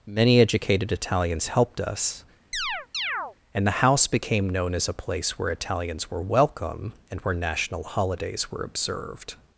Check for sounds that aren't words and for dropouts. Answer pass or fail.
fail